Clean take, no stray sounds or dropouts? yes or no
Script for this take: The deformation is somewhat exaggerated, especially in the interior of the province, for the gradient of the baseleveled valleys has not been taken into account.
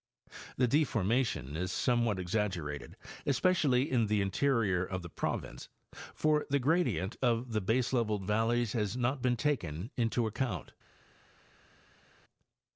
yes